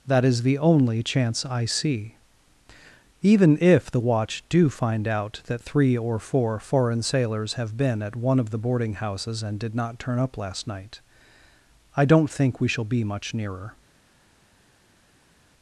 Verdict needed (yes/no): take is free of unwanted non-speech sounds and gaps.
yes